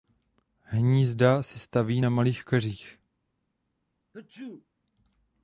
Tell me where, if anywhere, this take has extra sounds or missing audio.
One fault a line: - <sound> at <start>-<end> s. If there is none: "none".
- sneeze at 4.1-4.7 s